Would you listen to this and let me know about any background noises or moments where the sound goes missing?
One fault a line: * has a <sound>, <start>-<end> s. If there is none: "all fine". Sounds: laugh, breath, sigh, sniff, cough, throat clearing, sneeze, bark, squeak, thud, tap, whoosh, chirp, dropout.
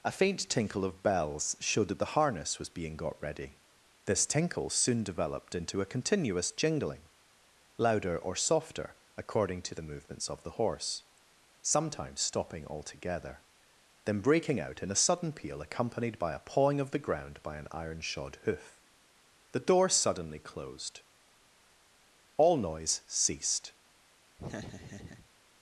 * has a laugh, 24.4-25.3 s